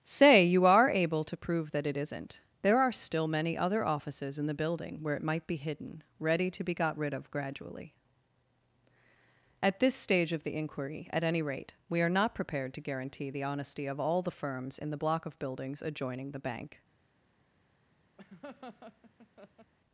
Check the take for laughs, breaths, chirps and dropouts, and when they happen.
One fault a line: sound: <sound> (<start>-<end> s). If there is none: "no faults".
sound: laugh (18.2-19.7 s)